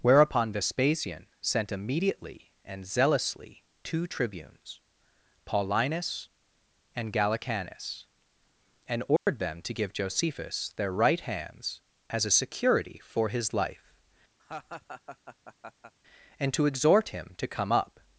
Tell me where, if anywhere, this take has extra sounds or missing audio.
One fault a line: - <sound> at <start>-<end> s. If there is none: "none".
- dropout at 9.2-9.3 s
- laugh at 14.4-15.9 s